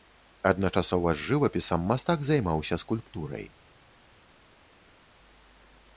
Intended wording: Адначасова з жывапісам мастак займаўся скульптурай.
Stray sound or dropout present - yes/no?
no